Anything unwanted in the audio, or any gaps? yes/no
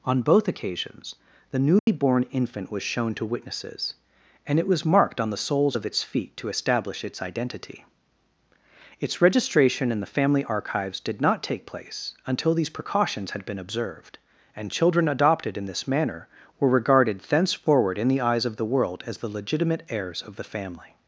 yes